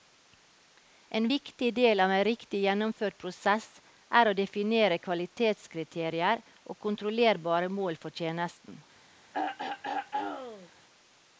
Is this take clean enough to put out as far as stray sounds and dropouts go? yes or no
no